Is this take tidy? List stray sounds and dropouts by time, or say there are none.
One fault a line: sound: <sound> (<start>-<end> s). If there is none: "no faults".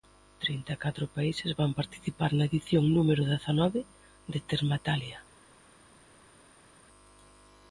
no faults